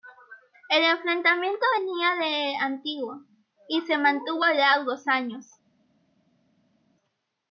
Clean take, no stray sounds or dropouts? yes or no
yes